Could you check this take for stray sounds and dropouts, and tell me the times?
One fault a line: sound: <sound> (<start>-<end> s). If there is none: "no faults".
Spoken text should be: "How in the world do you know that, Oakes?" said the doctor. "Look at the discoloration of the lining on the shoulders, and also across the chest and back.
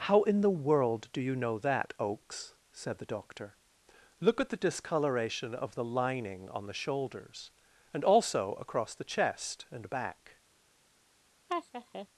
sound: laugh (11.5-12.1 s)